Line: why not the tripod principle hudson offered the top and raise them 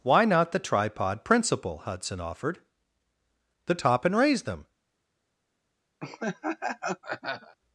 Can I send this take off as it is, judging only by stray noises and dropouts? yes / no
no